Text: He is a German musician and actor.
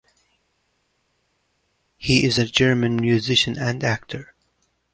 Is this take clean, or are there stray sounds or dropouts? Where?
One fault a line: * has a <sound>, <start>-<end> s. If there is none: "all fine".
all fine